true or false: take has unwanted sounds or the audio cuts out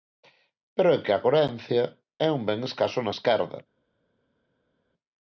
false